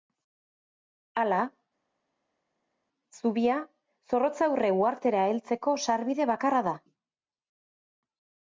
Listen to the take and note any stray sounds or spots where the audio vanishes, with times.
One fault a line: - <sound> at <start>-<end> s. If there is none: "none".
none